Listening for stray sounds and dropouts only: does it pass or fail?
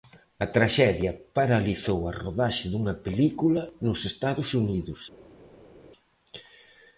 pass